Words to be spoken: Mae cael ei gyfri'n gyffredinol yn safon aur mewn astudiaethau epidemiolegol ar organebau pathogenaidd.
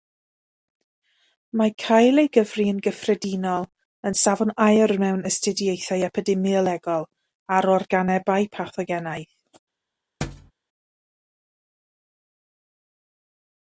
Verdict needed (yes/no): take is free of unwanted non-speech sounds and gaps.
no